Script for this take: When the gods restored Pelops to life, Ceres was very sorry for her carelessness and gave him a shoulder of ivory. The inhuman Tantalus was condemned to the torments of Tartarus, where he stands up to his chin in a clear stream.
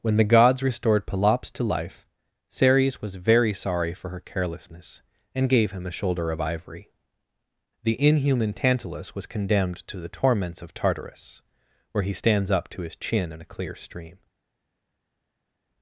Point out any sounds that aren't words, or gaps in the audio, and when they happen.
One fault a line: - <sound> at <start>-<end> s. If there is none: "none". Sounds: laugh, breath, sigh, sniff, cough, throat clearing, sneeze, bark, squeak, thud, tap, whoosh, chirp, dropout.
none